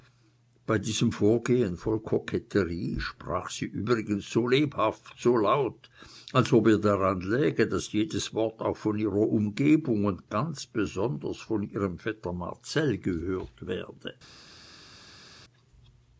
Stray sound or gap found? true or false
false